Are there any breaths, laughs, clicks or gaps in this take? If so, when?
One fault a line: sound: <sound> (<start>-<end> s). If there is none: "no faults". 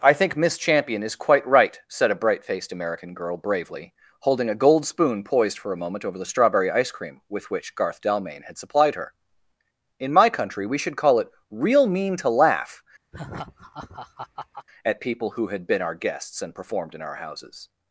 sound: laugh (13.1-14.7 s)